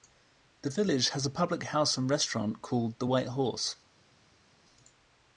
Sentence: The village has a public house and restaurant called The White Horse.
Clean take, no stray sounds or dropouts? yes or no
yes